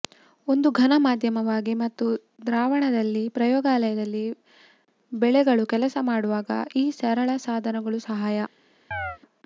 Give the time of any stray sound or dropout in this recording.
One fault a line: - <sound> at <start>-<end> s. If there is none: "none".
- chirp at 8.9-9.2 s